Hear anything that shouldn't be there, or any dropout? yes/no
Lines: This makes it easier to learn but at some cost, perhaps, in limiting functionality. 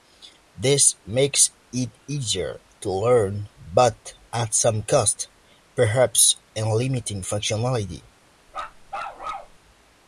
yes